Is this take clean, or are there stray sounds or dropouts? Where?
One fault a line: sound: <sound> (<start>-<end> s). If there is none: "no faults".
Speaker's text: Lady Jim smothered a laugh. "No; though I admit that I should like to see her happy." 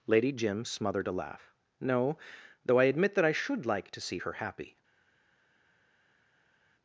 no faults